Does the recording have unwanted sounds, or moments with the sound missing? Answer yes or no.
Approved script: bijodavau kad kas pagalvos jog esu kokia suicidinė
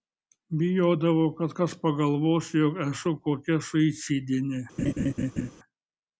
yes